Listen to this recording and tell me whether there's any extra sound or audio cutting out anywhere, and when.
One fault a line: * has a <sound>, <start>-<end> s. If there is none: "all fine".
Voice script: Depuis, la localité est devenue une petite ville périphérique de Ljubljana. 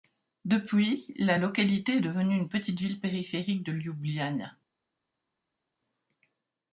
all fine